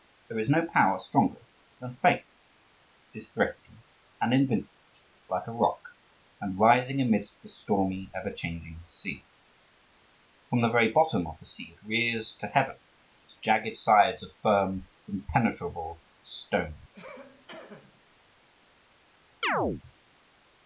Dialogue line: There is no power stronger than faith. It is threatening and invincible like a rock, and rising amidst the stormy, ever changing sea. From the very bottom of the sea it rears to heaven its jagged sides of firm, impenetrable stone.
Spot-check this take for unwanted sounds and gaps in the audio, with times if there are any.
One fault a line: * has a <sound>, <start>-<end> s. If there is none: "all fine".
* has a cough, 16.9-18.0 s
* has a chirp, 19.4-19.8 s